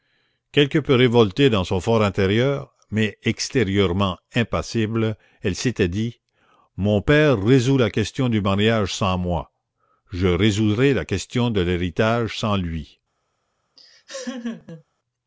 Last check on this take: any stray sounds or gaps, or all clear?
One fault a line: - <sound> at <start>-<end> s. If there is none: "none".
- laugh at 13.8-14.8 s